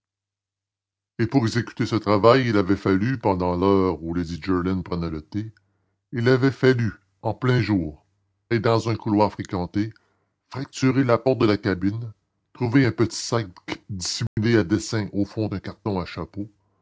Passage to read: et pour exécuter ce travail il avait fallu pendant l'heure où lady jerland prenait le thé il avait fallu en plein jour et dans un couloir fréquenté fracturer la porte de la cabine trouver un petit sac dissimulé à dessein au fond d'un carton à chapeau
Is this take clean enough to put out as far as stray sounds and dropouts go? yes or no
no